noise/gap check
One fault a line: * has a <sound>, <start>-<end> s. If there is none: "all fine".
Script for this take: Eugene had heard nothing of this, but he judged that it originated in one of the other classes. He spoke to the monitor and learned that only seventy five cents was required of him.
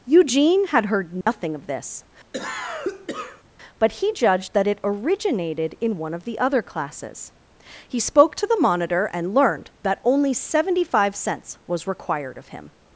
* has a dropout, 1.2-1.3 s
* has a cough, 2.3-3.4 s